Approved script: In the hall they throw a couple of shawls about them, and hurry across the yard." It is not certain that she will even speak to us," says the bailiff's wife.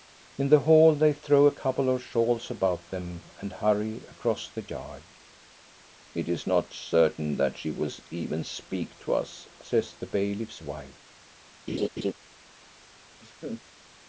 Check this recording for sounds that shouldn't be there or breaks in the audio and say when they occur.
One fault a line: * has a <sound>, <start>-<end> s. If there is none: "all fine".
* has a laugh, 11.7-12.1 s
* has a laugh, 13.2-13.6 s